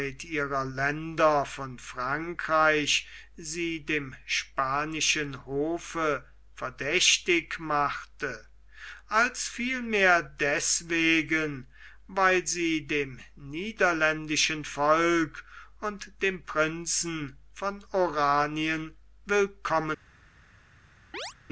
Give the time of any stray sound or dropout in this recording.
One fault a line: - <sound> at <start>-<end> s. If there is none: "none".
- chirp at 21.1-21.3 s